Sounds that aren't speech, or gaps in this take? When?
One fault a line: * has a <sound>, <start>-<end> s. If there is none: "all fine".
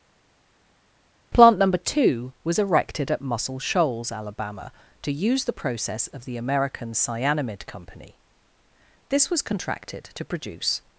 all fine